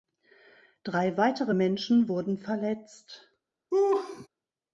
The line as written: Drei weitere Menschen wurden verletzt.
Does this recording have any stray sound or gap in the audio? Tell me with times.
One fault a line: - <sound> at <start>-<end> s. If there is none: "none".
- laugh at 3.7-4.3 s